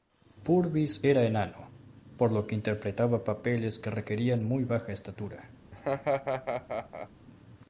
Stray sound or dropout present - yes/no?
yes